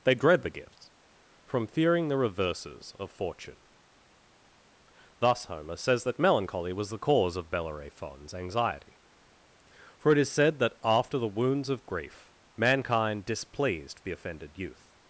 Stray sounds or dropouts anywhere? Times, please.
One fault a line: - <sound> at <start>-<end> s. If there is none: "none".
none